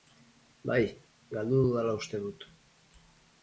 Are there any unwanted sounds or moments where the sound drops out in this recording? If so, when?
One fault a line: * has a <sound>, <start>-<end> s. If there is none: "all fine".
all fine